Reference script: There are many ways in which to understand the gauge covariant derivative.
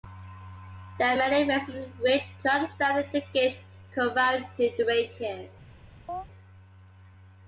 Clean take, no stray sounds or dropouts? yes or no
no